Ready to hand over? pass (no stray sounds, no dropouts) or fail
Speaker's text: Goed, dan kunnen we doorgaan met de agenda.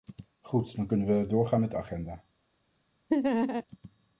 fail